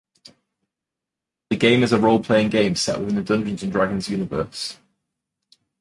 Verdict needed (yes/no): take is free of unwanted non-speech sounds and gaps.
yes